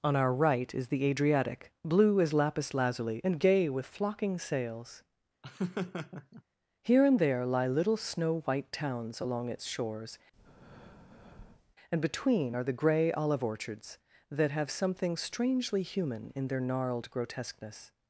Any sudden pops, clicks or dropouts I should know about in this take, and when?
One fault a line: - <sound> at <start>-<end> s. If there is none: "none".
- laugh at 5.4-6.4 s
- breath at 10.3-11.8 s